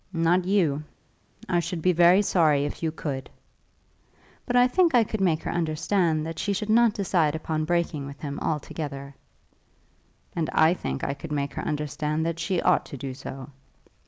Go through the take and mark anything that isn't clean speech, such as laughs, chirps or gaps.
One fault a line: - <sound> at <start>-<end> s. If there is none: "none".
none